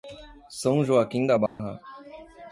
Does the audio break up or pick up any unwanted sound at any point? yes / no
yes